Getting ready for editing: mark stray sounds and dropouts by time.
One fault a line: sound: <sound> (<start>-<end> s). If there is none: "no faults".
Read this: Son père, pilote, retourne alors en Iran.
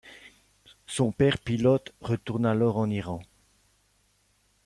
no faults